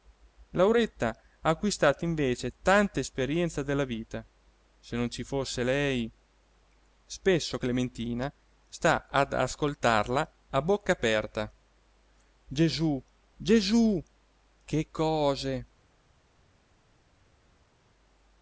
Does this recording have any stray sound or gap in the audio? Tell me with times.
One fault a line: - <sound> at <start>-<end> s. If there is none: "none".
none